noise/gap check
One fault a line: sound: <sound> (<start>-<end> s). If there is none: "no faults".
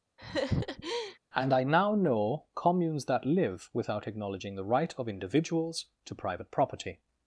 sound: laugh (0.2-1.2 s)